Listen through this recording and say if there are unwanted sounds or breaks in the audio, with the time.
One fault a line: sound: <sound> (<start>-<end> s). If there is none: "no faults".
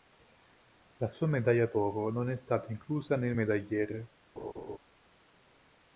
sound: laugh (4.4-4.8 s)